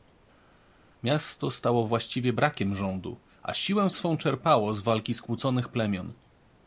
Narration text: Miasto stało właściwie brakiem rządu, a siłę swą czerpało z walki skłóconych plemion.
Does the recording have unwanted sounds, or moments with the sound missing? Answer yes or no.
no